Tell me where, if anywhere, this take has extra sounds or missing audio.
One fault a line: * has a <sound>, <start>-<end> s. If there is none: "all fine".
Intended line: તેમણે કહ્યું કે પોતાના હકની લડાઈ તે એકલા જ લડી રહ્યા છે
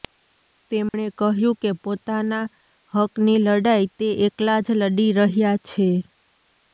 * has a dropout, 0.9-0.9 s